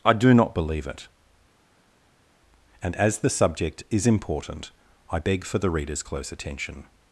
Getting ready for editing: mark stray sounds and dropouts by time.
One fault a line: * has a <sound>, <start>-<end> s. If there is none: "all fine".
all fine